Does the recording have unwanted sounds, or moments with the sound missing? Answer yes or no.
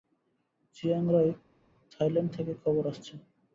no